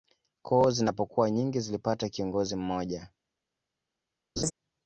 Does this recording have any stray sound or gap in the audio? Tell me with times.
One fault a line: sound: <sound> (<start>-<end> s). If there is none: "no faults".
sound: laugh (4.4-4.5 s)